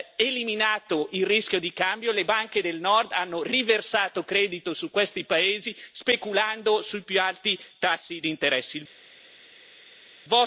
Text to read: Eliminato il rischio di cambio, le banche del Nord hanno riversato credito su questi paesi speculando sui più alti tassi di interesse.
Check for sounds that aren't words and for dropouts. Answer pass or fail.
pass